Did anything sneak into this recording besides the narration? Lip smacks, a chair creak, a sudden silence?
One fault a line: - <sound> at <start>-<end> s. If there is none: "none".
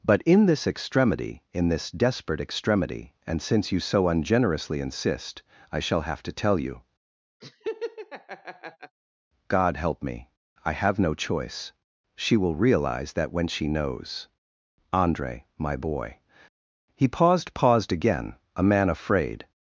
- laugh at 7.4-9.0 s